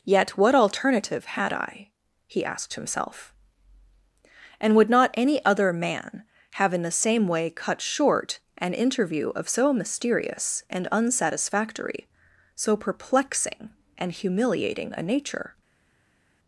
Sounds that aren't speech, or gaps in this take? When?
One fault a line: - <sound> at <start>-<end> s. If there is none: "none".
none